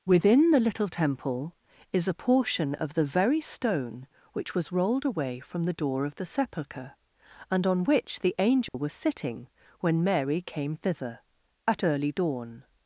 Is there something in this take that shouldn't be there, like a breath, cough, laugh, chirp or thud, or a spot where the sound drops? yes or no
yes